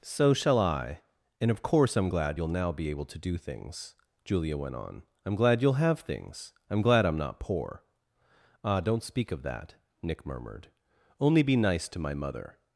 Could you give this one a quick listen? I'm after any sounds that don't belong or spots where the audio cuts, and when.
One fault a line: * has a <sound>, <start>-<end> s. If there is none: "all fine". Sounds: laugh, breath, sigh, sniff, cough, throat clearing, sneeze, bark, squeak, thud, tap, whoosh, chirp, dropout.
all fine